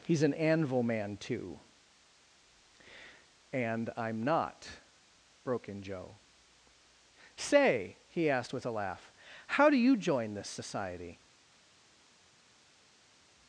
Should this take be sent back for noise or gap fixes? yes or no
no